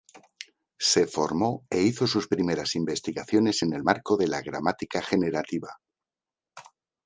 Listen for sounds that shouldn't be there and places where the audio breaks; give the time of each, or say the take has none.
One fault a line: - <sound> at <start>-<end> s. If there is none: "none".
none